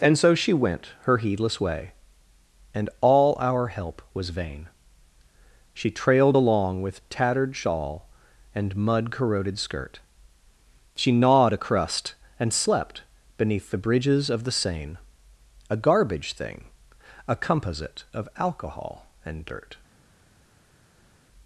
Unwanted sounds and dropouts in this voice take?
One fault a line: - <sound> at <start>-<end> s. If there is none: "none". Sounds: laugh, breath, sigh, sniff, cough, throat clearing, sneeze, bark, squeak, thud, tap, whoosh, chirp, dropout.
none